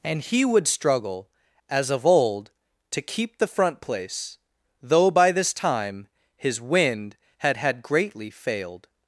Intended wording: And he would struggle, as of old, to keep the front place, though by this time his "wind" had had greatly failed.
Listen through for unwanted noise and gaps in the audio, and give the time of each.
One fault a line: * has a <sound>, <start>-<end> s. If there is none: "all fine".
all fine